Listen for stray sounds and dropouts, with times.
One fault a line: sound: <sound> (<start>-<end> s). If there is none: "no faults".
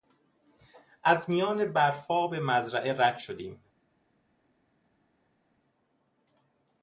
no faults